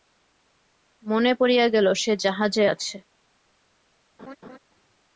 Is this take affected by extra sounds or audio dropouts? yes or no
yes